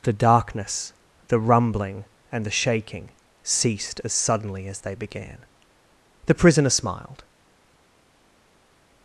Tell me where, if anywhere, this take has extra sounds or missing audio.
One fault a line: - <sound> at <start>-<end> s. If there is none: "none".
none